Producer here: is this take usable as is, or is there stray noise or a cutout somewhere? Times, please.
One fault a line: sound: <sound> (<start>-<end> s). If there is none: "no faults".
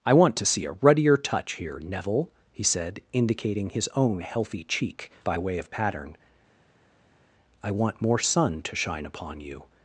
no faults